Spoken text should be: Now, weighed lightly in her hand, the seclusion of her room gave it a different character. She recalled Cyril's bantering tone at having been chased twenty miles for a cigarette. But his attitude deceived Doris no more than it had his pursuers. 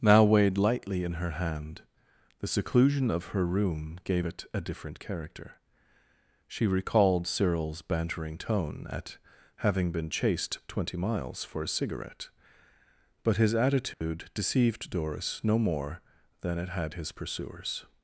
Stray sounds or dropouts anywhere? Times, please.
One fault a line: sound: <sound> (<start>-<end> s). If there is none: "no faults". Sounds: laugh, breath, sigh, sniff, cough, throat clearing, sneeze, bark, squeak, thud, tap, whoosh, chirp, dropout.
sound: dropout (13.9-14.0 s)